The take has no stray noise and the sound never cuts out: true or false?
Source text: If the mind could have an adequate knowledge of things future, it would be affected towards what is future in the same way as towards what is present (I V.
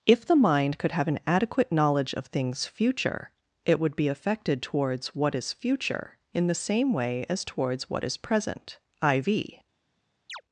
false